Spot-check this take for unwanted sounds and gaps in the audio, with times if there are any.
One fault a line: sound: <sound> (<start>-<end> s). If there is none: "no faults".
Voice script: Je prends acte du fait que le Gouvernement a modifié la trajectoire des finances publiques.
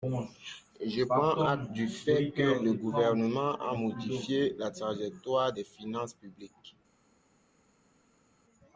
no faults